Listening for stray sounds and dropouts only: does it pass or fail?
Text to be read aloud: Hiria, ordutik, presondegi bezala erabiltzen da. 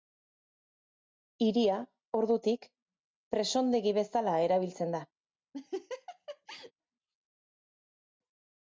fail